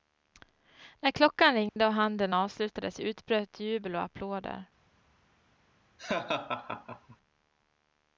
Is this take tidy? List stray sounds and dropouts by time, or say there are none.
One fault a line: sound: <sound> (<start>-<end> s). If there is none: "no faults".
sound: dropout (1.7-1.8 s)
sound: laugh (6.0-7.2 s)